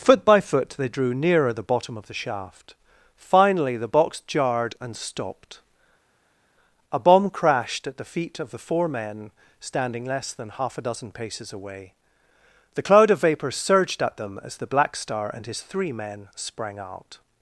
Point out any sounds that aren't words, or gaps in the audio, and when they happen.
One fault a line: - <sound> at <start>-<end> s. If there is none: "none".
none